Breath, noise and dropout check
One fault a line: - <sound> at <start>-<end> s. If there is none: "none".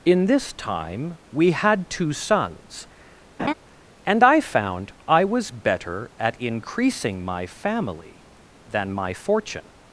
- laugh at 3.4-3.5 s